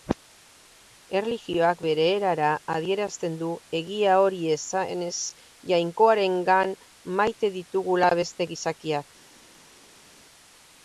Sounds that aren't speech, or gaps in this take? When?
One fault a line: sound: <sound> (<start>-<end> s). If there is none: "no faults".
no faults